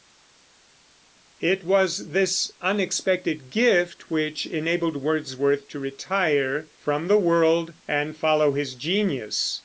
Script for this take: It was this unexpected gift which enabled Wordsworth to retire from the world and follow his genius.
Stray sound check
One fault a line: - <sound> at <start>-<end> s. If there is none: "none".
none